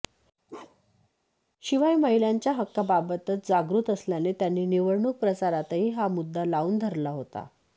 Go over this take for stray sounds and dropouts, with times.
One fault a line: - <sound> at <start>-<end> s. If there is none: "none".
- bark at 0.5-1.1 s